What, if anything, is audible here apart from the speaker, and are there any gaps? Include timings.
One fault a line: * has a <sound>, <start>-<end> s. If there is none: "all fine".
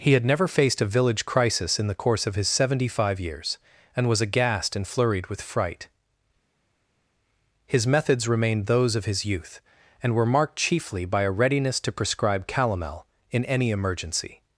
all fine